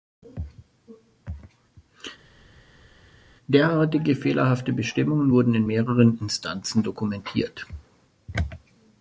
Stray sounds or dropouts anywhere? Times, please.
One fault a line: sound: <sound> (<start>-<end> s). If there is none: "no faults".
no faults